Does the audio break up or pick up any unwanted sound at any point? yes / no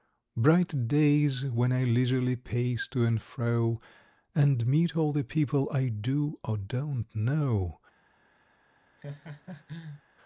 yes